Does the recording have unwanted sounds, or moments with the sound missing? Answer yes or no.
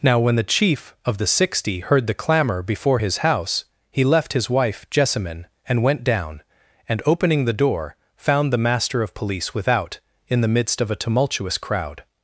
no